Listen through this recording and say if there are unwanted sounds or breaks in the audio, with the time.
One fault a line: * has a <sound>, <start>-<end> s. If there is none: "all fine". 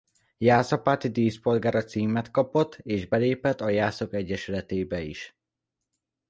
all fine